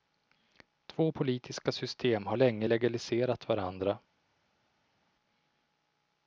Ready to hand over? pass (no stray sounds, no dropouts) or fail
pass